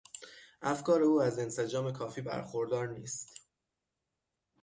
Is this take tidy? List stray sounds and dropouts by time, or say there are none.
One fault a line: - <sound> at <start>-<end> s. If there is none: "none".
none